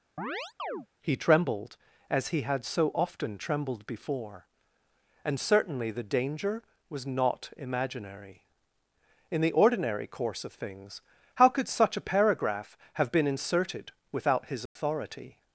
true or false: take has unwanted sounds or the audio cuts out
true